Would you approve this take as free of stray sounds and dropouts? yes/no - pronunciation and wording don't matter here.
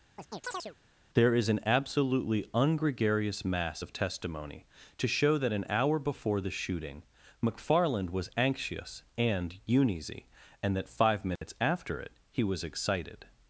no